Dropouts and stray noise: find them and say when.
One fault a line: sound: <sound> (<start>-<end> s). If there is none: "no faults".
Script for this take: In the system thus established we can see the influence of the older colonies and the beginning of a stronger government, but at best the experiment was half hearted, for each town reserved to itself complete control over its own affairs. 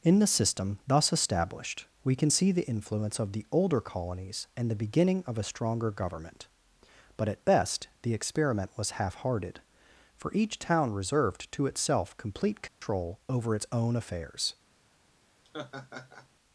sound: dropout (12.7-12.8 s)
sound: laugh (15.4-16.3 s)